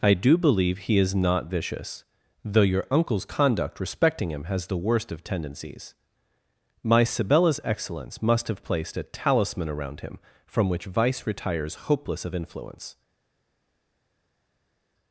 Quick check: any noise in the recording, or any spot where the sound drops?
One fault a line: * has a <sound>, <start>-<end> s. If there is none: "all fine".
all fine